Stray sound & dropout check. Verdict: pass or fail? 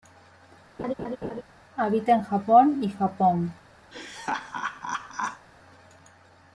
fail